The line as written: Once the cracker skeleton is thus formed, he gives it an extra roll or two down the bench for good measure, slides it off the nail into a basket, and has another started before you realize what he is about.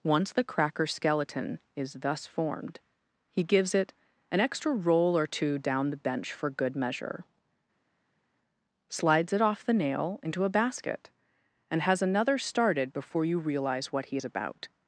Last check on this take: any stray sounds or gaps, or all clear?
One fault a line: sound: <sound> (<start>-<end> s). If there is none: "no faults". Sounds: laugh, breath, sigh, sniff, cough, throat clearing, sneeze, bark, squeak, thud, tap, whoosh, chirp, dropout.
no faults